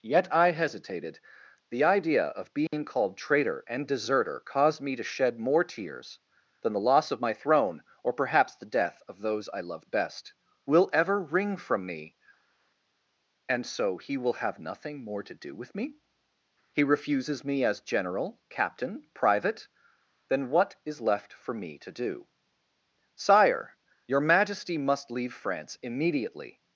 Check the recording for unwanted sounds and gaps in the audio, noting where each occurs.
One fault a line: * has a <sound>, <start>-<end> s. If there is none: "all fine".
* has a dropout, 2.7-2.7 s